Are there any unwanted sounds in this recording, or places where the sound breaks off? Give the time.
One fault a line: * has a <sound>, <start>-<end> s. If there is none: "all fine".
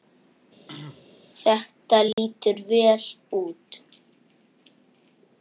* has a throat clearing, 0.7-1.1 s
* has a dropout, 2.1-2.2 s